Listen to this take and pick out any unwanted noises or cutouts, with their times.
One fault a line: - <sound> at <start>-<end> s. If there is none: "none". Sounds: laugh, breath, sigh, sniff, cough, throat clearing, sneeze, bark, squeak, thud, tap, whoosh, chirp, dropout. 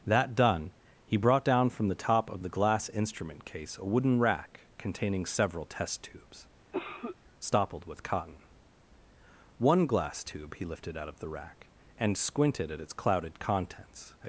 - cough at 6.7-7.2 s